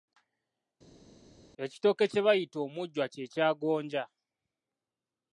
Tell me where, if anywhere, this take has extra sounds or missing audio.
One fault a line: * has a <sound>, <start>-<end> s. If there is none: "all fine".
all fine